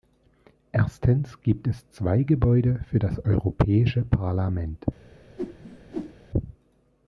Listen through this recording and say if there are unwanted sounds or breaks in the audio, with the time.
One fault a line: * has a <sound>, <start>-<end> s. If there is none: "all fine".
* has a whoosh, 5.4-6.1 s